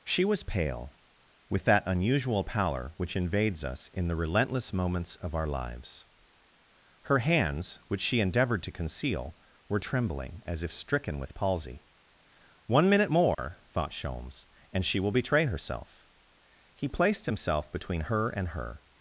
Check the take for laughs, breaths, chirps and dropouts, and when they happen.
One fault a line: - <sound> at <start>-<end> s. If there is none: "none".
- dropout at 13.3-13.4 s